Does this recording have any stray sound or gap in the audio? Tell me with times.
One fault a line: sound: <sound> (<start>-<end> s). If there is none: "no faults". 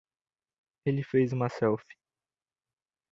no faults